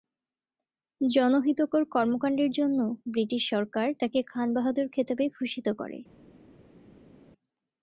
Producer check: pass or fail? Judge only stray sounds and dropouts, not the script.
pass